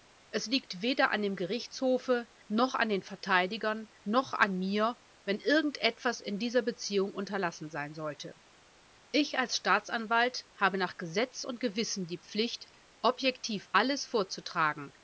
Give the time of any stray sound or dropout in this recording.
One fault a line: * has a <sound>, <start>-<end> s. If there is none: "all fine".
all fine